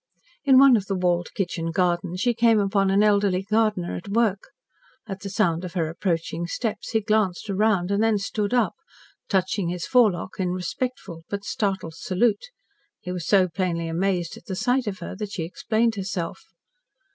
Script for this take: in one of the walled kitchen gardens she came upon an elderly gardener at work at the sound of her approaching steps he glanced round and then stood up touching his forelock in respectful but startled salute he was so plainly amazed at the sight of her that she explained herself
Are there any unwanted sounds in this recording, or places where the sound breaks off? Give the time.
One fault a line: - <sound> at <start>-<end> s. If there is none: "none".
none